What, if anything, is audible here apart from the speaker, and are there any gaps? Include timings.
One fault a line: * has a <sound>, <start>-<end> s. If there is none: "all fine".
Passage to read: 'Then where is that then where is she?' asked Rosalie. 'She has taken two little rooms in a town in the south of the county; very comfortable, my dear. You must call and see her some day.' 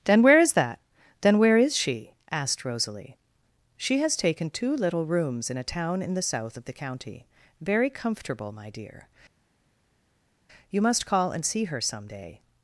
all fine